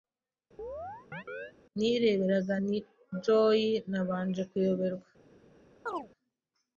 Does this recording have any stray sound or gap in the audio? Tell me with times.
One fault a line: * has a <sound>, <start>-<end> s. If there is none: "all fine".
* has a chirp, 0.6-1.5 s
* has a chirp, 5.9-6.1 s